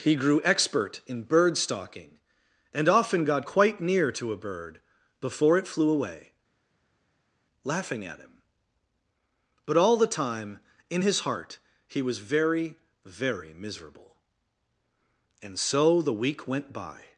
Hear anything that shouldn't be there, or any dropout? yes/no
no